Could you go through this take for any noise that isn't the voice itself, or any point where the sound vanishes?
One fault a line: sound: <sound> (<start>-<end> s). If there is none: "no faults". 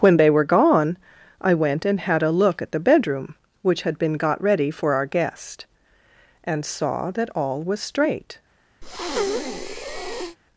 sound: breath (8.8-10.4 s)